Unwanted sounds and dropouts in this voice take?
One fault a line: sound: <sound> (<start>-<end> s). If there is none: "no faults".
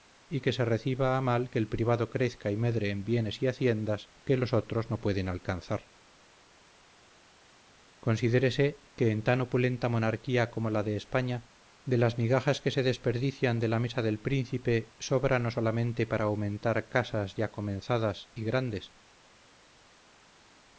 no faults